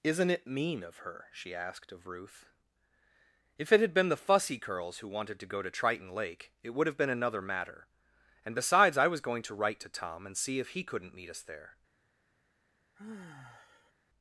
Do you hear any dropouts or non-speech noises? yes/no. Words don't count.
yes